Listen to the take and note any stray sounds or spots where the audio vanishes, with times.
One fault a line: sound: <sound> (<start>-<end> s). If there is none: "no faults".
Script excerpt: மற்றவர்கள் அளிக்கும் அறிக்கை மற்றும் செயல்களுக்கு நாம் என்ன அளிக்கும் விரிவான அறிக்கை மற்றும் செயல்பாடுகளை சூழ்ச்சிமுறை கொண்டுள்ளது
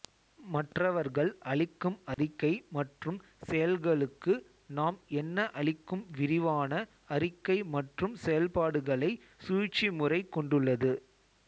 sound: dropout (2.1-2.2 s)